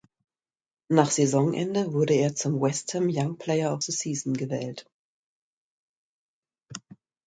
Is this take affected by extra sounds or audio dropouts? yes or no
no